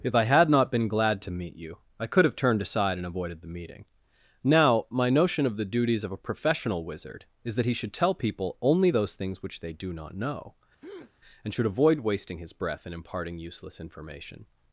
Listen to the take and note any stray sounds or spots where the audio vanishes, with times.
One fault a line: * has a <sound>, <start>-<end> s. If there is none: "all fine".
* has a breath, 10.8-11.1 s